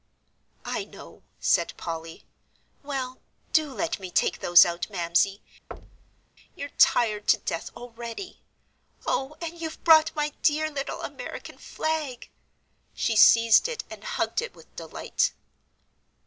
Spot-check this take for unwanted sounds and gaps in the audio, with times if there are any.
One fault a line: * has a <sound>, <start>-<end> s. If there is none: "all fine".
* has a thud, 5.7-6.3 s